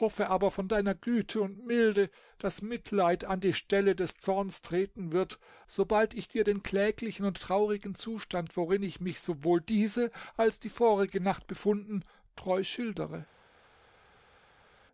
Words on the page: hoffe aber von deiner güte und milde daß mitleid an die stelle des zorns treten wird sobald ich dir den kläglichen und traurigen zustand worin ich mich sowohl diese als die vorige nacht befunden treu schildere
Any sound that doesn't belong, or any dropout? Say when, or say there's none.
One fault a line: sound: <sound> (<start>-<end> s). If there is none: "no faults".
no faults